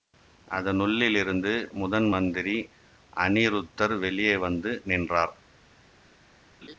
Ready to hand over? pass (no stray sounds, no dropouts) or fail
fail